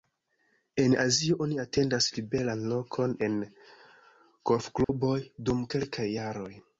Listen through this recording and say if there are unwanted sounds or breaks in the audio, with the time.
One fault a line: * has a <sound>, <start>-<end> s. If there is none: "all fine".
* has a dropout, 4.8-4.9 s